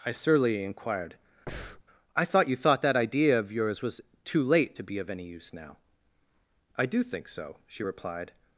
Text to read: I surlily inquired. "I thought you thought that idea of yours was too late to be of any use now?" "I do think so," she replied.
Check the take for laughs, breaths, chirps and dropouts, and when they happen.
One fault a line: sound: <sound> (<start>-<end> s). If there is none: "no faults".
sound: breath (1.5-1.8 s)